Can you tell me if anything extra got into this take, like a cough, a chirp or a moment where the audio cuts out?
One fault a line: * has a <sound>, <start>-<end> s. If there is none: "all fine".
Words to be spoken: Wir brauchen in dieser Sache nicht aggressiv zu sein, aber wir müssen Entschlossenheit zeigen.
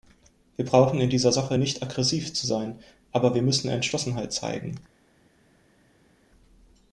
all fine